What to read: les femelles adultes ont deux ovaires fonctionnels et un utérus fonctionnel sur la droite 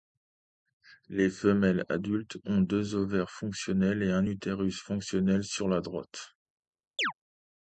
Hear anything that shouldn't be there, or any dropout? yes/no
yes